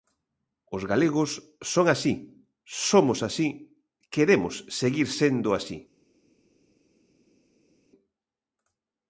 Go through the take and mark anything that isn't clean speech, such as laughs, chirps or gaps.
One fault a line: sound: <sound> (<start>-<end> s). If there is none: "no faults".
no faults